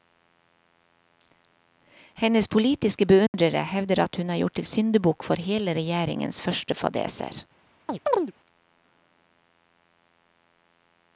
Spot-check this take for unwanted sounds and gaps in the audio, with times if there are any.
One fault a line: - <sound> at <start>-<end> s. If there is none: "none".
- dropout at 3.3-3.3 s
- chirp at 7.9-8.3 s